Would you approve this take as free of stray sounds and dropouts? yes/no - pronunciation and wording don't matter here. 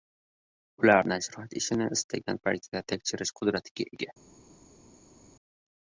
yes